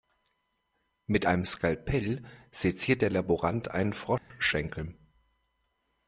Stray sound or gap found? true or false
true